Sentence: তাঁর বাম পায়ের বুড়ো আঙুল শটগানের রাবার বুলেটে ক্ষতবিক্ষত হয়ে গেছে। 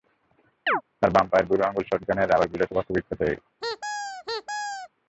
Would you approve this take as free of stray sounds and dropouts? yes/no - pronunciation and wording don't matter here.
no